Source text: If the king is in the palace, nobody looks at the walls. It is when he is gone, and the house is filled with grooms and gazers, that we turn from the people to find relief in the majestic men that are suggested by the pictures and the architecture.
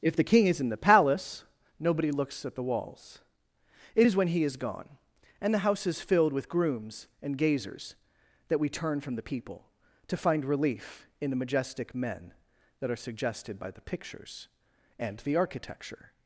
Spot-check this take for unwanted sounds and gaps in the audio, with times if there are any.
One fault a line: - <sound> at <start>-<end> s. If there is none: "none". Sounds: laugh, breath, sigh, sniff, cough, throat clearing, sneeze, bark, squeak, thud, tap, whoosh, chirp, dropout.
none